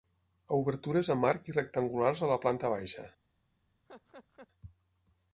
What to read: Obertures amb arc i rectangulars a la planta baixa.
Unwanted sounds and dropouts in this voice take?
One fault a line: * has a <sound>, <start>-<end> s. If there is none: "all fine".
* has a laugh, 3.9-4.5 s